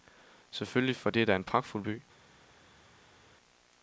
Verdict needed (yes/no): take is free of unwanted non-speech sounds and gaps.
yes